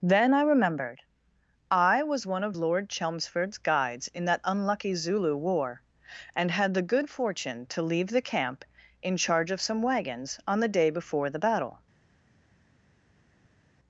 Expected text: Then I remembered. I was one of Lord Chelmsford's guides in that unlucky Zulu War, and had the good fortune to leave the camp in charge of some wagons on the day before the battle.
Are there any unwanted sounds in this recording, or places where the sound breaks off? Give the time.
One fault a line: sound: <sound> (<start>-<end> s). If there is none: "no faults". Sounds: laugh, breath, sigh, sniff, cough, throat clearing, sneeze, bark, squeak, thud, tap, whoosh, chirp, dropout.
no faults